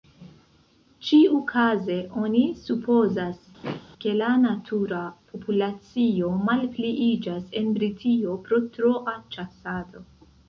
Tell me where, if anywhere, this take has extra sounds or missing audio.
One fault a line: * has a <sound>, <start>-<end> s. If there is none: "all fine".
* has a throat clearing, 3.6-3.8 s